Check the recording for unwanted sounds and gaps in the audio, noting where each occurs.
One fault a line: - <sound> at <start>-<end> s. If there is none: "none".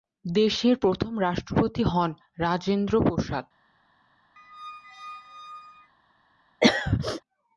- squeak at 4.4-5.9 s
- throat clearing at 6.6-7.2 s